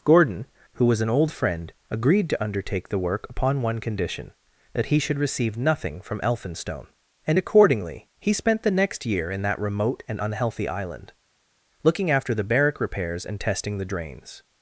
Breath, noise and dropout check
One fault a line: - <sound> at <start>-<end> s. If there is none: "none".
none